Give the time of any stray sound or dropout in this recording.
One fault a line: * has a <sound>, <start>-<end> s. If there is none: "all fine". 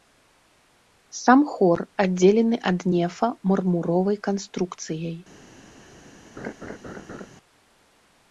* has a laugh, 6.4-7.3 s